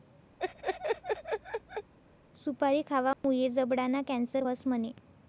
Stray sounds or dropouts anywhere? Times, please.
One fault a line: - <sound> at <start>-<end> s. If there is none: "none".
- laugh at 0.4-1.9 s
- dropout at 3.1-3.2 s